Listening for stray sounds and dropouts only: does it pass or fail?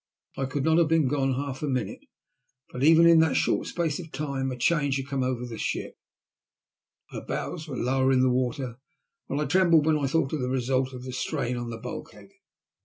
pass